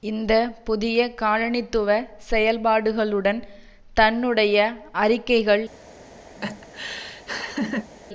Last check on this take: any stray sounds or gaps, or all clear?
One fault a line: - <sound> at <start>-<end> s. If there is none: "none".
- laugh at 6.4-7.9 s